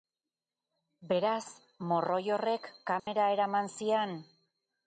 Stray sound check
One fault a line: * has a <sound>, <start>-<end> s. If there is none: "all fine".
* has a dropout, 3.0-3.1 s